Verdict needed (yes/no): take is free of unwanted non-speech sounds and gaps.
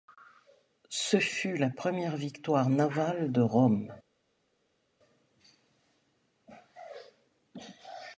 yes